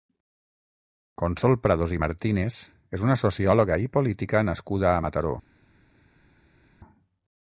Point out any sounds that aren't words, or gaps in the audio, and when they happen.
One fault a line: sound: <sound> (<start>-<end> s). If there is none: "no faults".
no faults